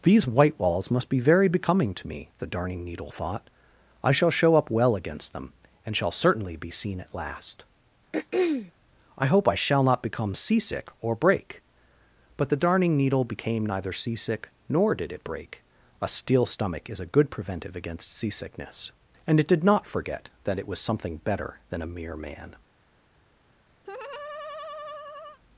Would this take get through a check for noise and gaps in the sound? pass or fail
fail